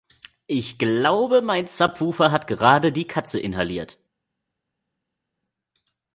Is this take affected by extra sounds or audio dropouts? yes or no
no